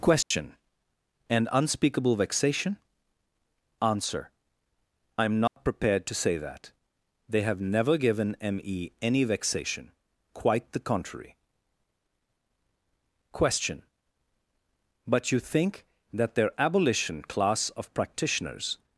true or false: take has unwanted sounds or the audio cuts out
true